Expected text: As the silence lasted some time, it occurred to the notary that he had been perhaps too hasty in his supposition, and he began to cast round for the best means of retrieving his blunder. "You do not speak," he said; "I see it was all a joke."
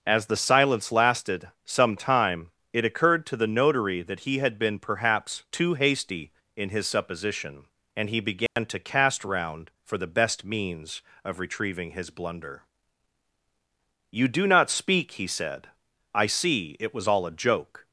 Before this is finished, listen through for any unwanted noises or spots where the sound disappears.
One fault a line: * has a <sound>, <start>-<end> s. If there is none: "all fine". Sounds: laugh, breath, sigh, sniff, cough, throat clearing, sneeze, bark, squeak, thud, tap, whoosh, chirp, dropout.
* has a dropout, 8.5-8.6 s